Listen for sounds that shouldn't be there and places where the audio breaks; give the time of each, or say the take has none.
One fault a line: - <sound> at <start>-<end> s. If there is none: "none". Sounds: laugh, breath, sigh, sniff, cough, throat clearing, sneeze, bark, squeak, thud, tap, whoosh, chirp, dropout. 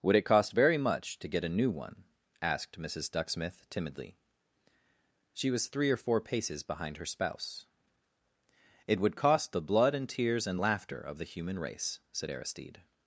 none